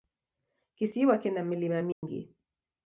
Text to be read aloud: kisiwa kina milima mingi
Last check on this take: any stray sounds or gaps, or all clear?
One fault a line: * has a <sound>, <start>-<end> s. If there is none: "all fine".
* has a dropout, 1.9-2.0 s